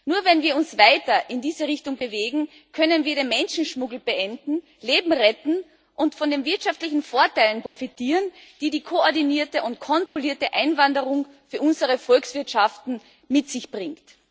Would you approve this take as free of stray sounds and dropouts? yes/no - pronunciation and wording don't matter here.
no